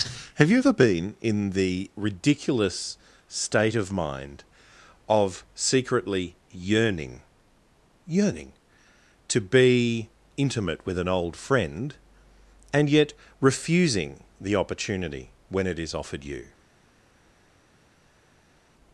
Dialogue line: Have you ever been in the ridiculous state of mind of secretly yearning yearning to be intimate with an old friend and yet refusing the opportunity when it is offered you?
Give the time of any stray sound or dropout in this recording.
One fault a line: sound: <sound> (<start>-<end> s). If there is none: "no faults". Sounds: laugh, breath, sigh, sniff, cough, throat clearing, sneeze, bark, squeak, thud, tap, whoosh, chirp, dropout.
no faults